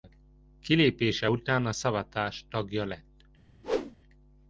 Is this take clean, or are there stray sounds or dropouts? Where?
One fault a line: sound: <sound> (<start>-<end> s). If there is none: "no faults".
sound: whoosh (3.6-4.0 s)